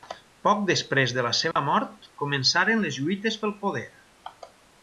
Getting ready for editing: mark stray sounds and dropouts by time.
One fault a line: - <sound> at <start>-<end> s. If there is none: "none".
- dropout at 1.5-1.6 s